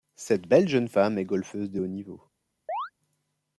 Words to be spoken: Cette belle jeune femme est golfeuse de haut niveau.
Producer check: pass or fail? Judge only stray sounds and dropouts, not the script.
fail